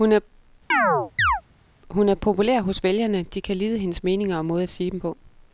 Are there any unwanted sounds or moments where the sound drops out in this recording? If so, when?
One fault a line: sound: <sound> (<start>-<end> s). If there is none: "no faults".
sound: chirp (0.7-1.4 s)